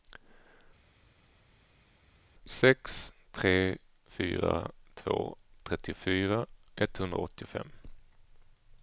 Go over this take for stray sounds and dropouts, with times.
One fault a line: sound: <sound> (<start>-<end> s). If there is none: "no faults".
no faults